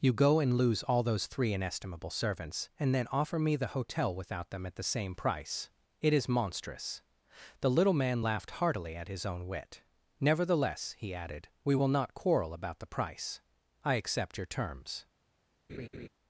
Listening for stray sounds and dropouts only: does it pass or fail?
fail